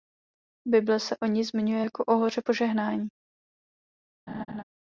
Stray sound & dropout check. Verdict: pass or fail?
fail